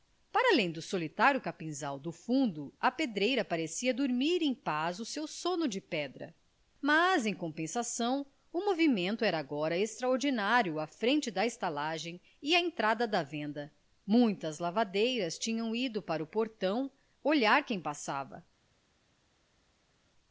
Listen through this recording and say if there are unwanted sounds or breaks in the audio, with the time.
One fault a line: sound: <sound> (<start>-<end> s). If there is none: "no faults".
no faults